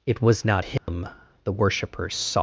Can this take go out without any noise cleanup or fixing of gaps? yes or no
no